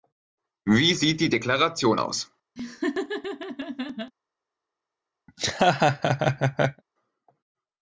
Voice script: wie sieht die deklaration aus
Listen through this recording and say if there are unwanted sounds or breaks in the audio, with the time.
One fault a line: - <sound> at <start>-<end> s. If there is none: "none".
- laugh at 2.6-4.1 s
- laugh at 5.3-6.8 s